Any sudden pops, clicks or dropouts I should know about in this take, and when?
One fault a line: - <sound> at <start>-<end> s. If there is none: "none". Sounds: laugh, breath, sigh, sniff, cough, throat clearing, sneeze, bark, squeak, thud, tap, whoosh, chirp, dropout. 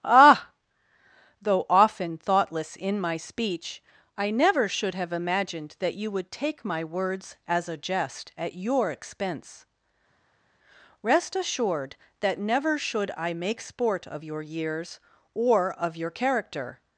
none